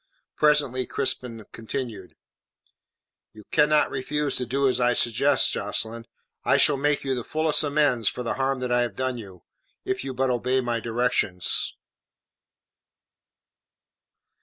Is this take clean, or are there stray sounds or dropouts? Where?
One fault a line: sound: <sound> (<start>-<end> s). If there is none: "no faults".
no faults